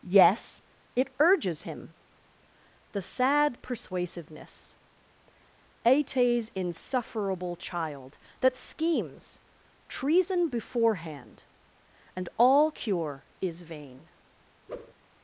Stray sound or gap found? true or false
true